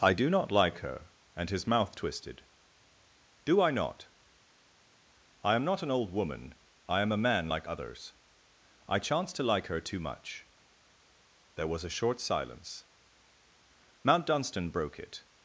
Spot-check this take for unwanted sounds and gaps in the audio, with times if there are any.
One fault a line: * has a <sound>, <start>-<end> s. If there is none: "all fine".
all fine